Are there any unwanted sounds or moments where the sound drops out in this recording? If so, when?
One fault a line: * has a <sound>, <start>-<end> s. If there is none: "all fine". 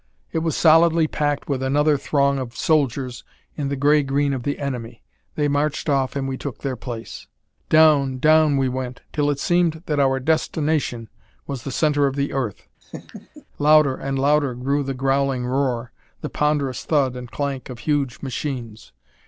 * has a laugh, 12.8-13.4 s